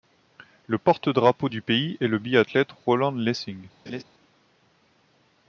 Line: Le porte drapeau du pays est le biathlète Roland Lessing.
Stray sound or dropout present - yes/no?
yes